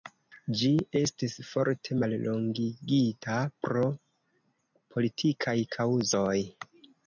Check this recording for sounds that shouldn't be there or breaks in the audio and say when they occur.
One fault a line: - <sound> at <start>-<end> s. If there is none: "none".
none